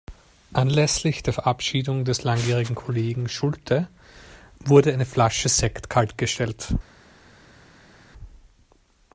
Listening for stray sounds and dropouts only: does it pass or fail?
pass